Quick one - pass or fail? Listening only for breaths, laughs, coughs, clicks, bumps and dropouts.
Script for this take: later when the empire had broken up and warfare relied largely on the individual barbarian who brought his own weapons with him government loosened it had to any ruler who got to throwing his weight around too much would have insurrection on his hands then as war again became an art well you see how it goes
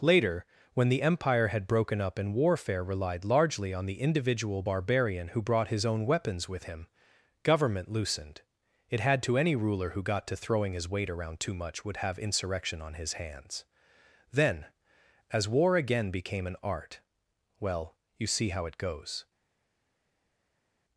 pass